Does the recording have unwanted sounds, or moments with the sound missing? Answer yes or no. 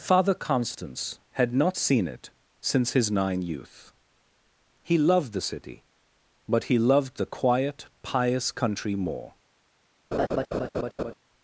yes